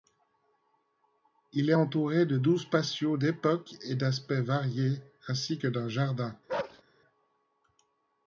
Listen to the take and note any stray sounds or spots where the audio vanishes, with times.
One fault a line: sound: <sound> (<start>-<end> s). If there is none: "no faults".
sound: bark (6.5-6.8 s)